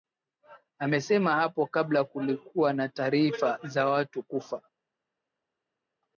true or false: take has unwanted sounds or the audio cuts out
false